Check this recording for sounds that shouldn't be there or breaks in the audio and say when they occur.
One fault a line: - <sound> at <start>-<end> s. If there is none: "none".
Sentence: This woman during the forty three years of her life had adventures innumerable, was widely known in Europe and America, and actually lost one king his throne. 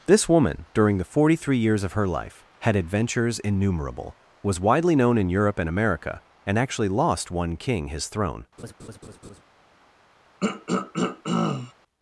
- laugh at 8.6-9.4 s
- throat clearing at 10.4-11.7 s